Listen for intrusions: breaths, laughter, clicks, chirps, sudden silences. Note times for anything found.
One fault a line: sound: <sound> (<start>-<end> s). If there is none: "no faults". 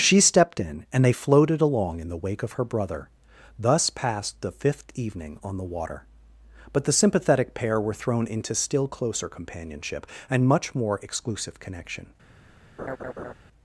sound: laugh (12.8-13.3 s)